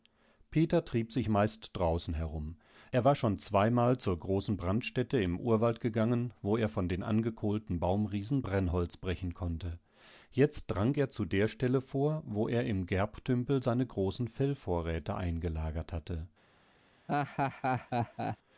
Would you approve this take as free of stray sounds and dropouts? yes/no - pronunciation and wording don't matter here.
no